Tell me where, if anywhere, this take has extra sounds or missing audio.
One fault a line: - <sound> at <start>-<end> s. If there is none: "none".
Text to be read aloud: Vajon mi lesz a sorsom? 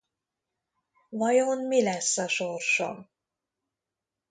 none